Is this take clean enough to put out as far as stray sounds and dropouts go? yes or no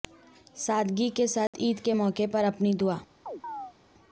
no